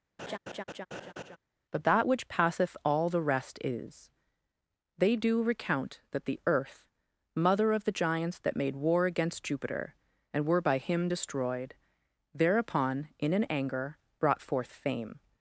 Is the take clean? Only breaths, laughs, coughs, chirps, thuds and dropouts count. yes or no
no